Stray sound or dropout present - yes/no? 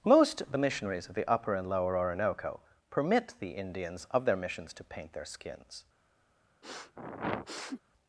yes